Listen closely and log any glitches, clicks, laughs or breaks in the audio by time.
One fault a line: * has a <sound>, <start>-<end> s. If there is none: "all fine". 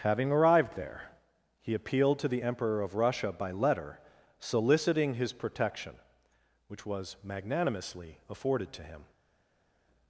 all fine